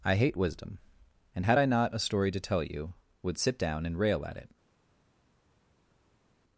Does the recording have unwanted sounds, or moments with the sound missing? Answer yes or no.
no